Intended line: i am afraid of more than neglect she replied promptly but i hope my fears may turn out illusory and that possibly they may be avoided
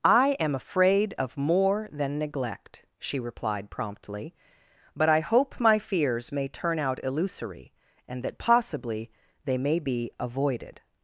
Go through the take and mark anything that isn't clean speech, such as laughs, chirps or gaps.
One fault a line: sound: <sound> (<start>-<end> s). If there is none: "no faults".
no faults